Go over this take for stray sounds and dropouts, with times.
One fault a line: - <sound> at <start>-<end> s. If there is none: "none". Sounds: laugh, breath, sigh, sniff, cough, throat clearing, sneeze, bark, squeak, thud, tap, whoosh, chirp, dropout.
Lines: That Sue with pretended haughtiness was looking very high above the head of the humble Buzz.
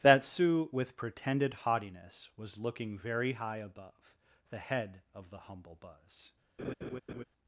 - laugh at 6.6-7.2 s